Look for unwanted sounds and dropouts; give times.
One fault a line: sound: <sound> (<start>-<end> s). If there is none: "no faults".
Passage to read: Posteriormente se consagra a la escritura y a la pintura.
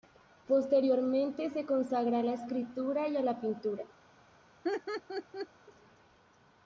sound: laugh (4.6-5.5 s)